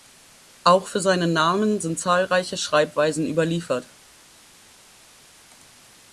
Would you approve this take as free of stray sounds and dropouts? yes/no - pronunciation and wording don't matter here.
yes